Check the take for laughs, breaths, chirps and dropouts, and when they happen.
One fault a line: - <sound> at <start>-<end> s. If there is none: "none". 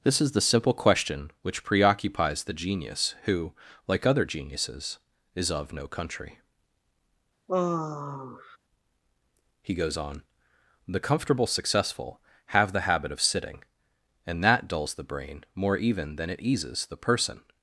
- sigh at 7.5-8.6 s